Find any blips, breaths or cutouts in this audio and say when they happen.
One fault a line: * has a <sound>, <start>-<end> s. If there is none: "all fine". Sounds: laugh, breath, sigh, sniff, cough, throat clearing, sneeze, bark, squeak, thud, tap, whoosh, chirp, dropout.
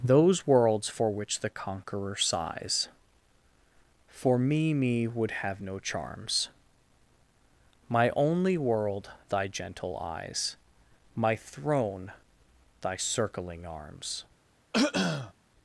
* has a throat clearing, 14.7-15.3 s